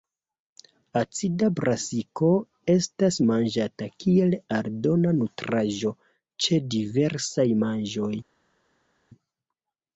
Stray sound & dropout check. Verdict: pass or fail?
pass